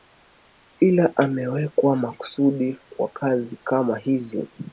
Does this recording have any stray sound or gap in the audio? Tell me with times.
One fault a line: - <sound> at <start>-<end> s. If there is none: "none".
none